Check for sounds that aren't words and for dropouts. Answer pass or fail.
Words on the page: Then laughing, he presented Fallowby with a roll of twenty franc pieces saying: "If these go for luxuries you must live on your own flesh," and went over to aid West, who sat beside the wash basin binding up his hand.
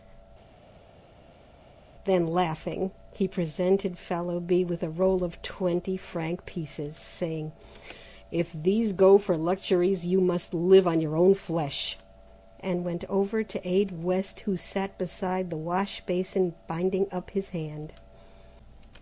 pass